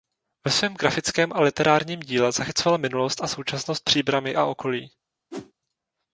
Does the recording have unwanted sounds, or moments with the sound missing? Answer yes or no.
yes